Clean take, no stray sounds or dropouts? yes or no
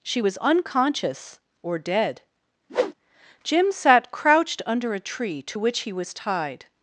no